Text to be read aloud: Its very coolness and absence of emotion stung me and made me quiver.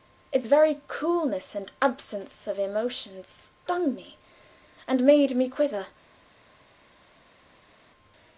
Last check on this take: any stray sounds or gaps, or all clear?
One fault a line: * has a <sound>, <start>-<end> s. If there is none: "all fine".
all fine